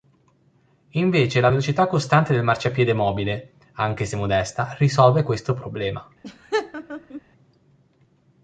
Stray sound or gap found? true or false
true